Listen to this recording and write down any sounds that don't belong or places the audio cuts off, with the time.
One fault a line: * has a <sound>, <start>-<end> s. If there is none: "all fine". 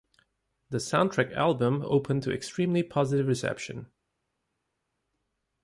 all fine